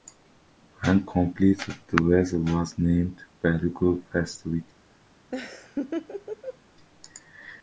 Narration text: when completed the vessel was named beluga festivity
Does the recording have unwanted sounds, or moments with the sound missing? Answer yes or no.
yes